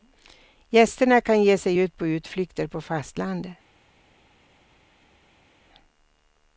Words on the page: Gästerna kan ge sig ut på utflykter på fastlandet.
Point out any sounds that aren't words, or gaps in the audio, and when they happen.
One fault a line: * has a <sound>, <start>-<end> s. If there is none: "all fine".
all fine